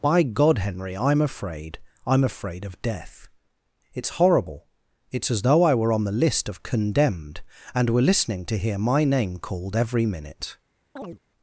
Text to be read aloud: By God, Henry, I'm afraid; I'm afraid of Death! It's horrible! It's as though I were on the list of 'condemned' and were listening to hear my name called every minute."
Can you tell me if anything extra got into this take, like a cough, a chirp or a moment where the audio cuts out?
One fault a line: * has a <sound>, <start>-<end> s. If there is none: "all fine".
* has a chirp, 11.0-11.2 s